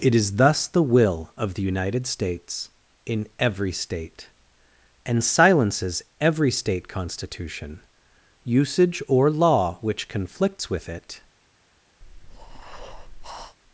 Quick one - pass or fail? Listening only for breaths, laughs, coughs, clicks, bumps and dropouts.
fail